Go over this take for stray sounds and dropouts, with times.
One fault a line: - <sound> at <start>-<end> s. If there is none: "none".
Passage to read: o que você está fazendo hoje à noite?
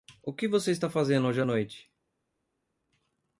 none